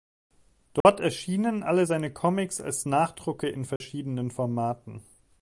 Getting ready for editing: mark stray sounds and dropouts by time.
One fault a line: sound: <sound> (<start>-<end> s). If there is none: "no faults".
sound: dropout (0.8-0.8 s)
sound: dropout (3.8-3.8 s)